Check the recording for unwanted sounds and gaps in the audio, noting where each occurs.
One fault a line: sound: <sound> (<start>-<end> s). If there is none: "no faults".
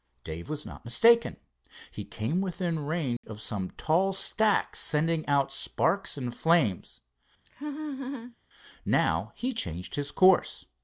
sound: dropout (3.2-3.2 s)
sound: laugh (7.5-8.4 s)